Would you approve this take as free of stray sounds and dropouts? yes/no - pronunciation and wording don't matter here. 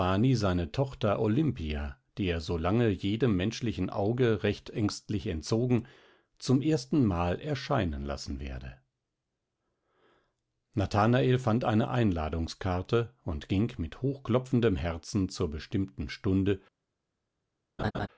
no